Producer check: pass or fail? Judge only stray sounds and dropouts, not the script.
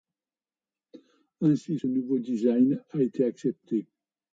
pass